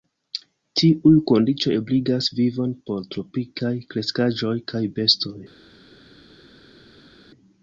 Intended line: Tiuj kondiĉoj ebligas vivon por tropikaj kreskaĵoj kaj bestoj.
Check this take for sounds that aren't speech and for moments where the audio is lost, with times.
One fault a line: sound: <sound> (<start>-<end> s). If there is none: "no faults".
no faults